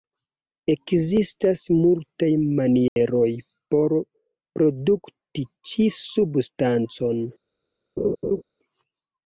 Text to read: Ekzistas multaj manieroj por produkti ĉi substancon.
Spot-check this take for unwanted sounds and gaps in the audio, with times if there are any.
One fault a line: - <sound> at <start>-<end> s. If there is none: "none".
- dropout at 2.9-3.0 s
- laugh at 8.0-8.4 s